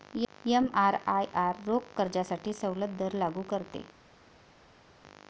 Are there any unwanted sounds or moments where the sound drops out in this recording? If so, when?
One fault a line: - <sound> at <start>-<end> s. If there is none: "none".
none